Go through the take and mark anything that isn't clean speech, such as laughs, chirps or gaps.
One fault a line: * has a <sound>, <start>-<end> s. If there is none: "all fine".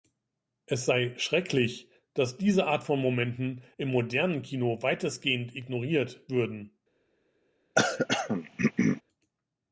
* has a throat clearing, 7.8-9.0 s